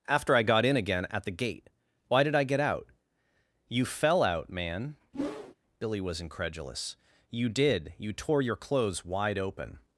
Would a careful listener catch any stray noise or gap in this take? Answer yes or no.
yes